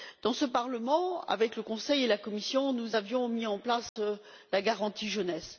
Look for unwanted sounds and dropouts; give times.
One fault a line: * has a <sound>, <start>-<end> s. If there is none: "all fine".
* has a dropout, 3.9-4.0 s